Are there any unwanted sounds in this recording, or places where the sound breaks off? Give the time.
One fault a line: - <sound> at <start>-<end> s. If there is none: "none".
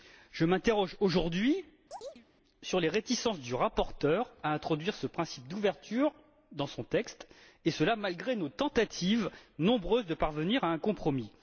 - chirp at 1.9-2.3 s